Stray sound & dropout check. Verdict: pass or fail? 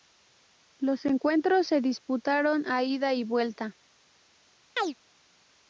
fail